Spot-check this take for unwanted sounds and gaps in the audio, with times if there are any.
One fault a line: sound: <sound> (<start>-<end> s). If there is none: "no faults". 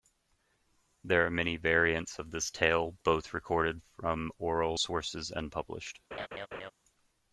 sound: laugh (6.1-6.7 s)